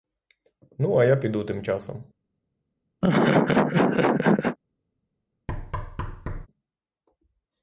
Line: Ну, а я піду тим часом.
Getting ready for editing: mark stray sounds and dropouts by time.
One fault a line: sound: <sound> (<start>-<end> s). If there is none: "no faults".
sound: laugh (3.0-4.6 s)
sound: thud (5.5-6.5 s)